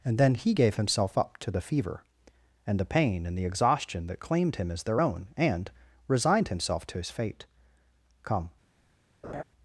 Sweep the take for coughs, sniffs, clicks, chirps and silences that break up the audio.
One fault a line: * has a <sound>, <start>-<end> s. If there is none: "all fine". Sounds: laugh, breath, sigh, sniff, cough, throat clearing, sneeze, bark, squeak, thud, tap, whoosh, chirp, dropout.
* has a laugh, 9.2-9.4 s